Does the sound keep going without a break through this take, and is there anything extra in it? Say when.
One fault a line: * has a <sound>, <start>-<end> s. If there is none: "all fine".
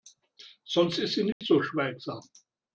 * has a dropout, 1.3-1.4 s